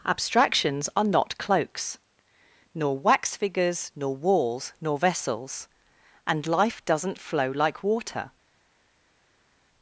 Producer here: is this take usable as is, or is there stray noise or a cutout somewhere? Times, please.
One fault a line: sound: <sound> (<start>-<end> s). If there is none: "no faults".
no faults